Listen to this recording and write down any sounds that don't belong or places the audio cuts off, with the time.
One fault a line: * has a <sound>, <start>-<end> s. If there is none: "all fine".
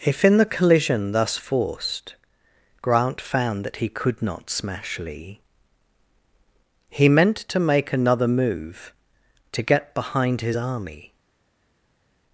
all fine